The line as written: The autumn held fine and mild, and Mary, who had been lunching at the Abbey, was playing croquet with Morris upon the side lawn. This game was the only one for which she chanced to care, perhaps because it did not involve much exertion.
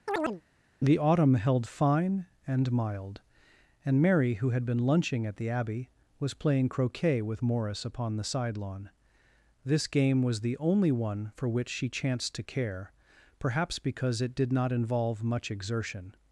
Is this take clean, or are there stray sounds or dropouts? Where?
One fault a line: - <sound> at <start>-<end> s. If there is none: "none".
- chirp at 0.1-0.4 s